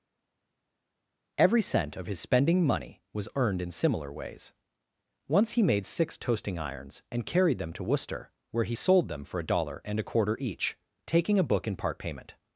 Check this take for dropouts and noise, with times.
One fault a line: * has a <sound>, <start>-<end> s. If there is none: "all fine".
all fine